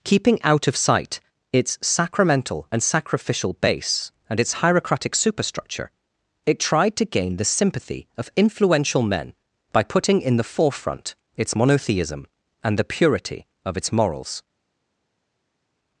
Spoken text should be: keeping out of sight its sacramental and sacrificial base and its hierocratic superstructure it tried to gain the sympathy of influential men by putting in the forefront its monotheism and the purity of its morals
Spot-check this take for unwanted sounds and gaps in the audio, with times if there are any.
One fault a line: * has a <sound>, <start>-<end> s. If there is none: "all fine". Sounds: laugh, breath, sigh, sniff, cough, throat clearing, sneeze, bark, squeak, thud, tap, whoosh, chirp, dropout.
all fine